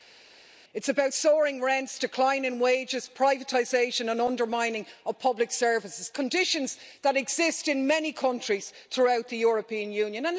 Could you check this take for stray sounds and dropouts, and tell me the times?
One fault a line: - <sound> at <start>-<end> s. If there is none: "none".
none